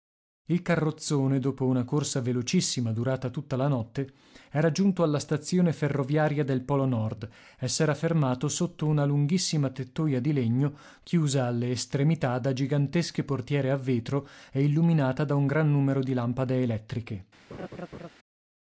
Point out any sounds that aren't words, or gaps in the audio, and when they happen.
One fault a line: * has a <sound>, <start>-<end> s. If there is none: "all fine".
* has a laugh, 17.5-18.1 s